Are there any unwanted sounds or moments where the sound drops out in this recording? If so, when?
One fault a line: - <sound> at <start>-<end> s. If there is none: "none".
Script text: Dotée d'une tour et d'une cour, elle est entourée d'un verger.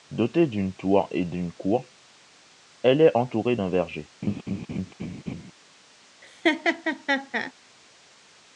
- laugh at 4.2-5.5 s
- laugh at 6.2-7.5 s